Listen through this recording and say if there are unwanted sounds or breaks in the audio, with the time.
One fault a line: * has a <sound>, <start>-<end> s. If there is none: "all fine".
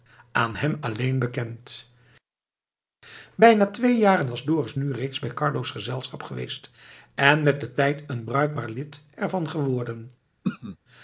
* has a throat clearing, 10.4-10.8 s